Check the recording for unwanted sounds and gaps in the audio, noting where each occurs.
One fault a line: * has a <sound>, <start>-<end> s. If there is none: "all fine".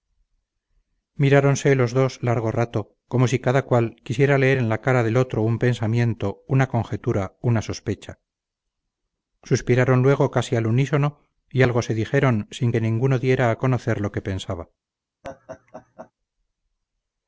* has a laugh, 15.2-16.1 s